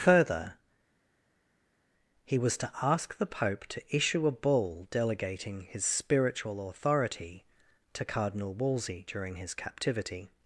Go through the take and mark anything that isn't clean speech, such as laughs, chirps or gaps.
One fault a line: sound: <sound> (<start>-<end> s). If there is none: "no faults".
no faults